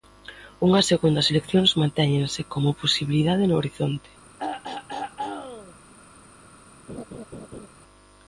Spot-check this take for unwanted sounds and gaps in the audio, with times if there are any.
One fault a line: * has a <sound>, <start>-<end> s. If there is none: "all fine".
* has a throat clearing, 4.4-5.7 s
* has a laugh, 6.9-7.7 s